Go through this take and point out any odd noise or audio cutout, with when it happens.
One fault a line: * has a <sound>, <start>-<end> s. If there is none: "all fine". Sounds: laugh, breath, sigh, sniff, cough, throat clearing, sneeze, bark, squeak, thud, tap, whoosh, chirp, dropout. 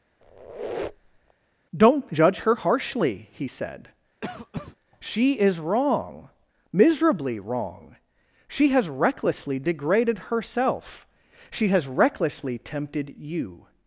* has a squeak, 0.2-1.3 s
* has a cough, 4.2-4.8 s